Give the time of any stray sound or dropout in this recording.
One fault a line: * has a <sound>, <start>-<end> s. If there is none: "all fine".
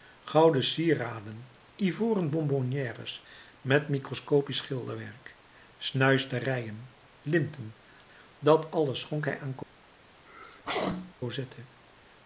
* has a sneeze, 10.3-11.1 s